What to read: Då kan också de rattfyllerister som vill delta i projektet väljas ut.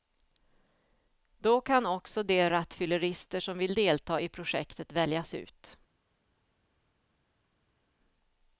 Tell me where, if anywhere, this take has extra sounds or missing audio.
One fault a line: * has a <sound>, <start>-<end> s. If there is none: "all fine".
all fine